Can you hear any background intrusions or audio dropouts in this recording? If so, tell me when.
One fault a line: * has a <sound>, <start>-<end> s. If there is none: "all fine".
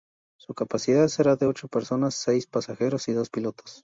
all fine